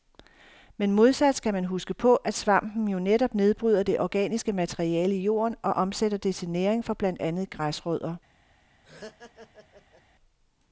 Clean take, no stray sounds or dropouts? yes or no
no